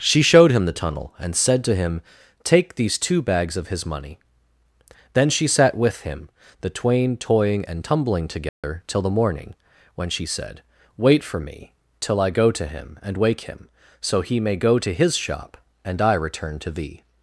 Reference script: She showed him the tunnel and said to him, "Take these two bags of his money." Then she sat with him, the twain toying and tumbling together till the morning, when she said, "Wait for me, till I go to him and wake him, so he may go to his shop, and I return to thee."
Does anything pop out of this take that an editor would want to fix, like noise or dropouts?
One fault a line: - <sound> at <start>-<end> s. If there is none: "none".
- dropout at 8.5-8.6 s